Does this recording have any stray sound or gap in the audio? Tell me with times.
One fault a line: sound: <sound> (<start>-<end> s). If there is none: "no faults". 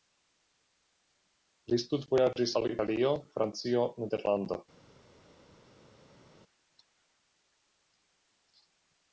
no faults